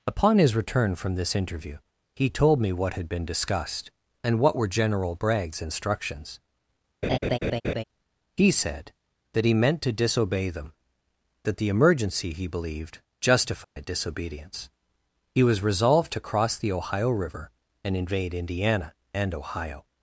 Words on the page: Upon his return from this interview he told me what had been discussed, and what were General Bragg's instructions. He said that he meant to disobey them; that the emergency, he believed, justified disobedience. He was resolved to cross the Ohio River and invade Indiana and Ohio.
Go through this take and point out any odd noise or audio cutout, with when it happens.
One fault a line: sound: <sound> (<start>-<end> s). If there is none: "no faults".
sound: laugh (7.0-7.8 s)
sound: dropout (13.6-13.8 s)